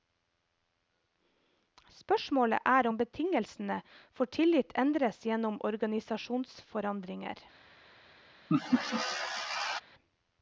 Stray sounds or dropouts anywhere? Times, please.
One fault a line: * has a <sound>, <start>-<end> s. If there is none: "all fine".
* has a laugh, 8.5-9.8 s